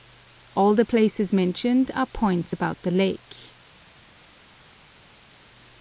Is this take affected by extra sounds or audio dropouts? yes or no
no